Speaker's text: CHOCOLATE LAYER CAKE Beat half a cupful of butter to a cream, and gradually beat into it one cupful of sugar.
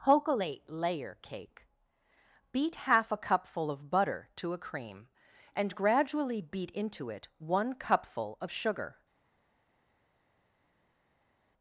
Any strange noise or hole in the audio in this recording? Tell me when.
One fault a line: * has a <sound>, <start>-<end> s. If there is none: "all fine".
all fine